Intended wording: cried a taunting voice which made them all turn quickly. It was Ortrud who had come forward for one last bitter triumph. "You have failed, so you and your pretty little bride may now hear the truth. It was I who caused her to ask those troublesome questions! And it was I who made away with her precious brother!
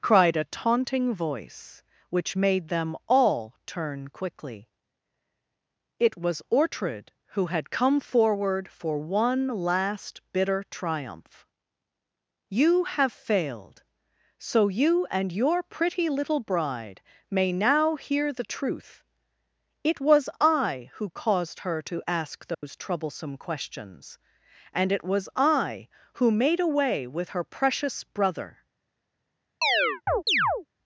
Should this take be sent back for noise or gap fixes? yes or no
yes